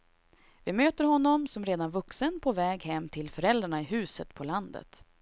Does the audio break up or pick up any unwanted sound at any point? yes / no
no